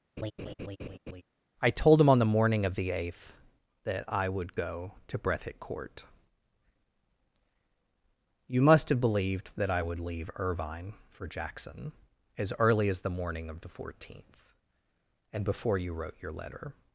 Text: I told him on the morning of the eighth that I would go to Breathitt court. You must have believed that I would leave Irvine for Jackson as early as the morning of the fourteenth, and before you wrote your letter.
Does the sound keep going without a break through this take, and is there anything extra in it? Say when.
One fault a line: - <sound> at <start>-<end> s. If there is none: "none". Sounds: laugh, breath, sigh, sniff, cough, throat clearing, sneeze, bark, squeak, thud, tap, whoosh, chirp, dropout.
- laugh at 0.2-1.2 s